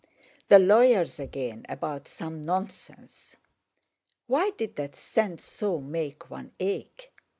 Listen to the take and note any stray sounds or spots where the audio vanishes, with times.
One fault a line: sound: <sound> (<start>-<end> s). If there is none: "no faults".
no faults